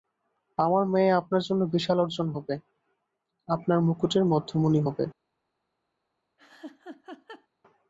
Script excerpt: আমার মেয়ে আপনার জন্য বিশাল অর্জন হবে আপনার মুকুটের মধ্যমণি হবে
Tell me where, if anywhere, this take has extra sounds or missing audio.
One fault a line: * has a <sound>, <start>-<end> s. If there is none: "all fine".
* has a laugh, 6.4-7.5 s